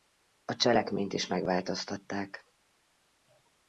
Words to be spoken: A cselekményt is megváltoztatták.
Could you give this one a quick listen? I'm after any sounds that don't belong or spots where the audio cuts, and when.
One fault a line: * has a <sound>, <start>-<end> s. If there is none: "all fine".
all fine